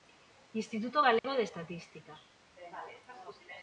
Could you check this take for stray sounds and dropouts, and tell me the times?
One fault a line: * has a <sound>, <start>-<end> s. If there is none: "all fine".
* has a dropout, 1.2-1.2 s